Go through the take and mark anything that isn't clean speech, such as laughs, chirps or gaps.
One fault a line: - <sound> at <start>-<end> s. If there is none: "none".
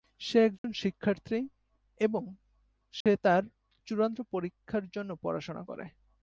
- dropout at 0.6-0.6 s
- dropout at 3.0-3.1 s